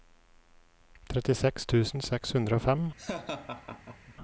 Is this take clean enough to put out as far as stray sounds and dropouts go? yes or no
no